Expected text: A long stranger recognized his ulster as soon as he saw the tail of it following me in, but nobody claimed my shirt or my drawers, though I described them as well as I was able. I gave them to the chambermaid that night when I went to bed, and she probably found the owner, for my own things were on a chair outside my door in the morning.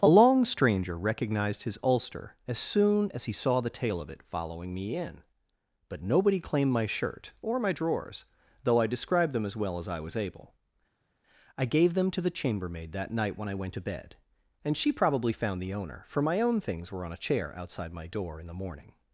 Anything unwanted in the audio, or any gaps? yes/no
no